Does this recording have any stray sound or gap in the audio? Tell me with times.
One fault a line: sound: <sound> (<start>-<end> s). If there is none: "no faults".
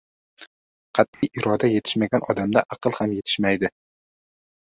sound: dropout (1.1-1.2 s)